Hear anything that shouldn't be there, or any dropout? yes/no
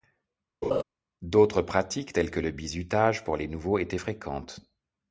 yes